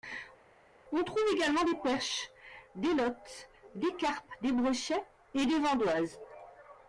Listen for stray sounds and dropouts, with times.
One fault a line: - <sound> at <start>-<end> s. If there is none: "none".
none